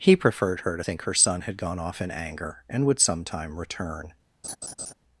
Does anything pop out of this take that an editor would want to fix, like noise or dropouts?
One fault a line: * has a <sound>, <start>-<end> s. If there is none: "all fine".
* has a laugh, 4.4-4.9 s